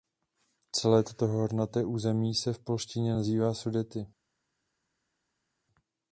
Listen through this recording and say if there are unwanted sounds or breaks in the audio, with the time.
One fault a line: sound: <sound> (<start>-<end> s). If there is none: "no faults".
no faults